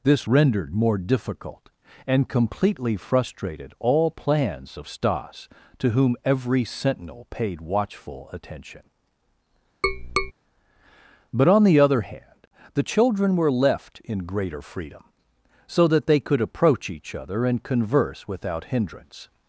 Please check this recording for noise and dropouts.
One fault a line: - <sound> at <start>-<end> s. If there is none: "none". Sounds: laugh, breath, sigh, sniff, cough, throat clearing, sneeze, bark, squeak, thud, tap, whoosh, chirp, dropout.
- tap at 9.8-10.3 s